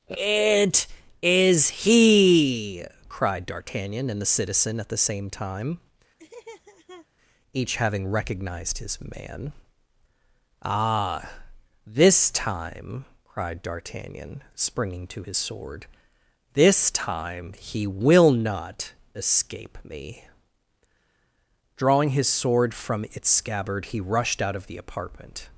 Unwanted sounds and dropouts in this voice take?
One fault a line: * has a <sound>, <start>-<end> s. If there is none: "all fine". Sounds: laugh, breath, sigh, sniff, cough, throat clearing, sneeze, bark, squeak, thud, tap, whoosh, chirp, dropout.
* has a laugh, 6.2-7.1 s